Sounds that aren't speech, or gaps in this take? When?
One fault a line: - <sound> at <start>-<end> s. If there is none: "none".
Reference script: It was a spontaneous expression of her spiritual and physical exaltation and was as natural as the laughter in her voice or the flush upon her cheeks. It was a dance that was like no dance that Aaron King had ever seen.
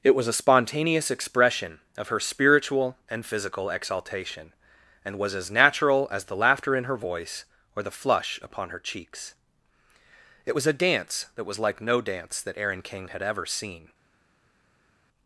none